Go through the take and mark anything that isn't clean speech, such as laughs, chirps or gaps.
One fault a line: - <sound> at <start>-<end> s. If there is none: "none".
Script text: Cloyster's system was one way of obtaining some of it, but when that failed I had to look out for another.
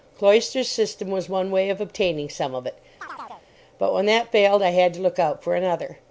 - chirp at 3.0-3.5 s